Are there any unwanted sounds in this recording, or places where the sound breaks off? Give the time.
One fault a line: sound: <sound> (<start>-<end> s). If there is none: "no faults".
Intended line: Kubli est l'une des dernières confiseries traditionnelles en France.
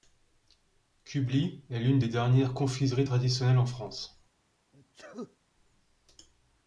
sound: sneeze (4.7-5.4 s)